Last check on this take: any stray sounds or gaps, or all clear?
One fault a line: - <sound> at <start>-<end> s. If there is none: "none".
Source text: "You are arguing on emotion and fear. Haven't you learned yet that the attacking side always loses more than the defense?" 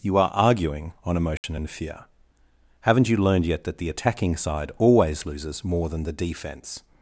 - dropout at 1.4-1.4 s